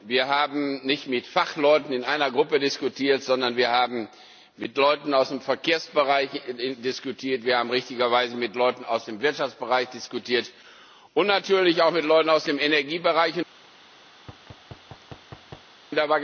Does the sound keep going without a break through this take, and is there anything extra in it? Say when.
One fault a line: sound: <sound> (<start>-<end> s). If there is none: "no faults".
sound: thud (14.2-15.7 s)